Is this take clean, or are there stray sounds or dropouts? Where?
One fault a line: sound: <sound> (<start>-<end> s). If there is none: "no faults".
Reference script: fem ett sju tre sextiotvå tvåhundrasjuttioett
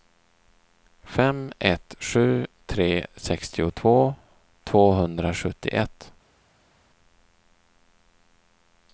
no faults